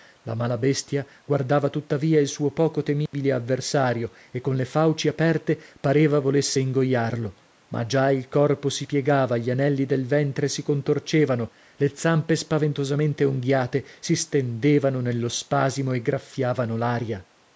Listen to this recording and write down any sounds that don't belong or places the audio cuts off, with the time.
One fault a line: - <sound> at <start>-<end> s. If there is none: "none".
- dropout at 3.1-3.1 s